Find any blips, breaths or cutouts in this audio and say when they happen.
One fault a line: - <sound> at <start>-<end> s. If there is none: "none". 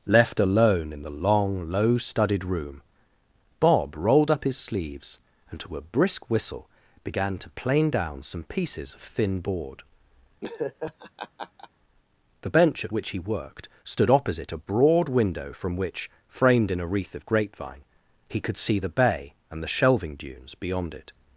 - laugh at 10.4-11.7 s